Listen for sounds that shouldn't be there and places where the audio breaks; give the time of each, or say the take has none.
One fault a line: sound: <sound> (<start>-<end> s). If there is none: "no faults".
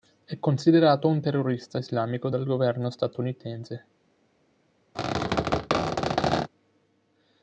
sound: squeak (4.9-6.5 s)